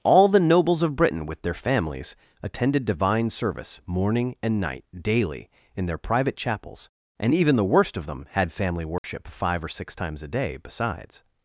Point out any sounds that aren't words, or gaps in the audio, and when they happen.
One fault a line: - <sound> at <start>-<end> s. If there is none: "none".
- dropout at 9.0-9.0 s